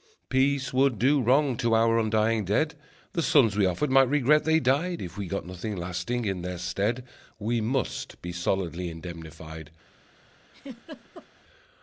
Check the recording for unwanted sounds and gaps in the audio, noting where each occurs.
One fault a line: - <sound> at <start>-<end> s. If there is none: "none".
- laugh at 10.5-11.3 s